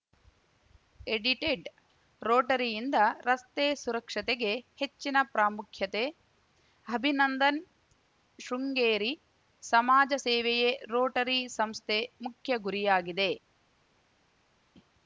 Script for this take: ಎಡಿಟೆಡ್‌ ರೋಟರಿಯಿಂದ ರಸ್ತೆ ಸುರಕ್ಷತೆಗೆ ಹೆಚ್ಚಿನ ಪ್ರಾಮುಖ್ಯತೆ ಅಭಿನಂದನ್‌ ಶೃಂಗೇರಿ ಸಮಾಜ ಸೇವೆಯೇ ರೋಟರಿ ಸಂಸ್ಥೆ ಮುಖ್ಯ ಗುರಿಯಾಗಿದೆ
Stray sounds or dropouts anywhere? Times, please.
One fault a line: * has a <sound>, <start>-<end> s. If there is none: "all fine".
all fine